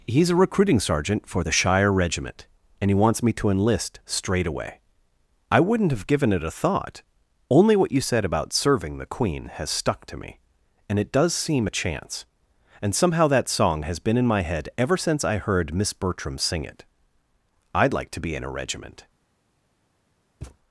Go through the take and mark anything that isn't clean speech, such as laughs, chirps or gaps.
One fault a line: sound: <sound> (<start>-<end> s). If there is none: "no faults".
sound: thud (20.4-20.6 s)